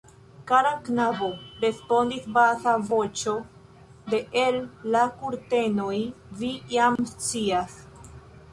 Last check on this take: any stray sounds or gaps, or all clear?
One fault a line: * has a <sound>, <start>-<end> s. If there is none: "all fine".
* has a dropout, 7.0-7.0 s